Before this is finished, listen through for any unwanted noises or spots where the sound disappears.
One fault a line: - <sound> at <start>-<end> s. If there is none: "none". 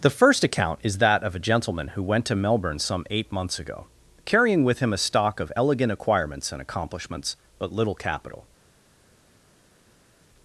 none